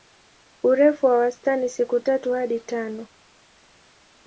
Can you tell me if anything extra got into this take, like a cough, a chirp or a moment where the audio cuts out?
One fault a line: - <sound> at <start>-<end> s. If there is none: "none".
none